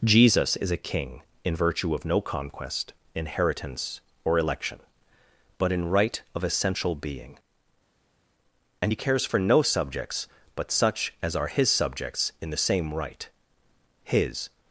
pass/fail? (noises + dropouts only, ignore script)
pass